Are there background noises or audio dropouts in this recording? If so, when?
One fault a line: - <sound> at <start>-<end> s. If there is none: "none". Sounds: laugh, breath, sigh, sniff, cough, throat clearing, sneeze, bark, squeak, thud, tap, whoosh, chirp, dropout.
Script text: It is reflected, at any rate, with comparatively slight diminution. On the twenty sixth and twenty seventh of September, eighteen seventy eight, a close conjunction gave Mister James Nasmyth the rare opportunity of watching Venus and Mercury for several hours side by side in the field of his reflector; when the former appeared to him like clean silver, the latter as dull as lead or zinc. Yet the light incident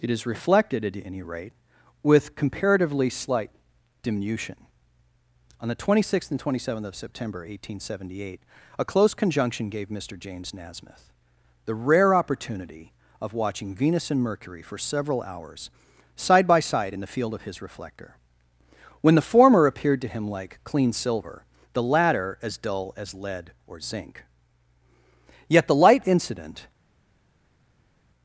none